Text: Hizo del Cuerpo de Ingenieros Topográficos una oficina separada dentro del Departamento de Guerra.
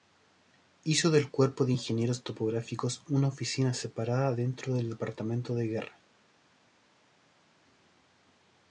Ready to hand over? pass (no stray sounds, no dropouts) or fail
pass